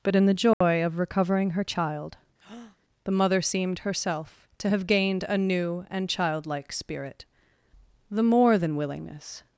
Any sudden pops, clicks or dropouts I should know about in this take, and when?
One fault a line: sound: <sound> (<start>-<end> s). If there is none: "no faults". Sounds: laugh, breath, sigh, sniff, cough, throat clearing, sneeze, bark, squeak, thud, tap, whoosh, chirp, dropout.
sound: dropout (0.5-0.6 s)
sound: breath (2.4-2.8 s)